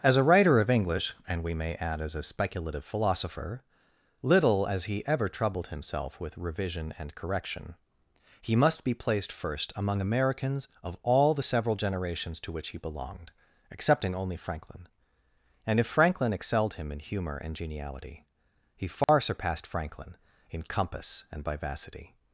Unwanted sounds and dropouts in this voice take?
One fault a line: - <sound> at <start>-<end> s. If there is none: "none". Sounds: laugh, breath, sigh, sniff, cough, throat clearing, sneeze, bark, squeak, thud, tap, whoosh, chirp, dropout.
- dropout at 19.0-19.1 s